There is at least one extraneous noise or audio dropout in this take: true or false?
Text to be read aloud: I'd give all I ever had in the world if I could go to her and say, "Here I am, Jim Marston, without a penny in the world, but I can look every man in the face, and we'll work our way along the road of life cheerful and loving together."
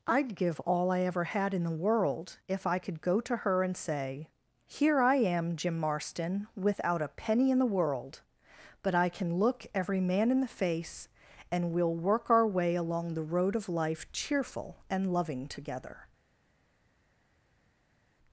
false